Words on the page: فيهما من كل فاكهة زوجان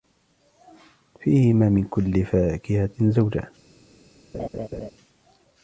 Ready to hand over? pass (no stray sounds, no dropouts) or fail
fail